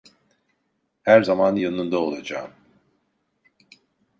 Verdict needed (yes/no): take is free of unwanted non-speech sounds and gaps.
yes